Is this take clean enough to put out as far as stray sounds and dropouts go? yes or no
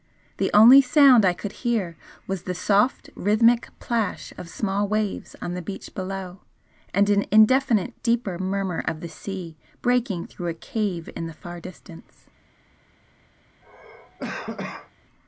no